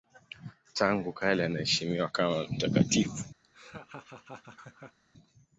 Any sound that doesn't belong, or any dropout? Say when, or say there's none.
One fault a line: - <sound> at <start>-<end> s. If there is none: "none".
- laugh at 3.4-5.0 s